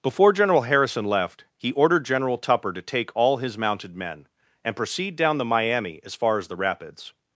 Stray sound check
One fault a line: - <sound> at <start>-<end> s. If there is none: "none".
none